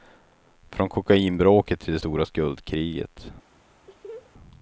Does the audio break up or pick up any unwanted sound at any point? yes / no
yes